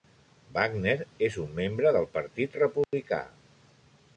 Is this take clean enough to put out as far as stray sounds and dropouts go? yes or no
no